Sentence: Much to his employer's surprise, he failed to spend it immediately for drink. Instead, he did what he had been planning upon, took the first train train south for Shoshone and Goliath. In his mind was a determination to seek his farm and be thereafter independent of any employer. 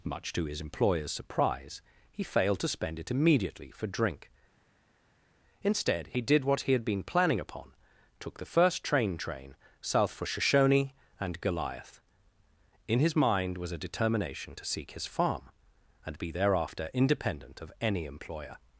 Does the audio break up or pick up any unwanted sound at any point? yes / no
no